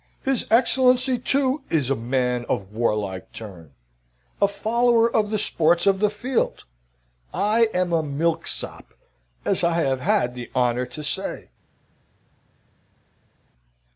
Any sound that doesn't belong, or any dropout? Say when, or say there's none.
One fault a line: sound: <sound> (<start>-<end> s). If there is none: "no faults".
no faults